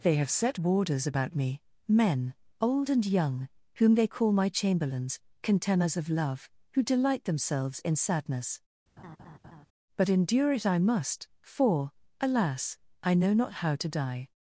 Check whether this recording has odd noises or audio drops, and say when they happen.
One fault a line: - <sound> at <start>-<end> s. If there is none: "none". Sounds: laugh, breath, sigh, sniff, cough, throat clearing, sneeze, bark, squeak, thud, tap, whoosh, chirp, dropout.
- laugh at 9.0-9.7 s